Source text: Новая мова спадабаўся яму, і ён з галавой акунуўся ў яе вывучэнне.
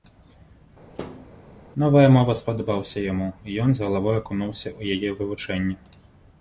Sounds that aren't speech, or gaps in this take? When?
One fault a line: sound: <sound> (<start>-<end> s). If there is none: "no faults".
sound: thud (1.0-1.3 s)